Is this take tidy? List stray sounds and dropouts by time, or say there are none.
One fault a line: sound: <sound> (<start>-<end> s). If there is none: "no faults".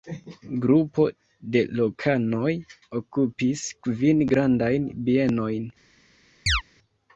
sound: chirp (6.5-6.6 s)